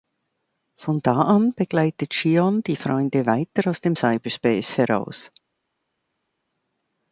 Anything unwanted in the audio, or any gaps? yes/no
no